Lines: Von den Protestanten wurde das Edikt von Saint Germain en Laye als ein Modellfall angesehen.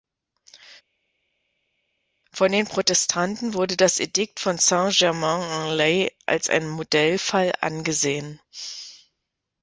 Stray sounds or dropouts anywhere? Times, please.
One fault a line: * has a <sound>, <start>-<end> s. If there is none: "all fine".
all fine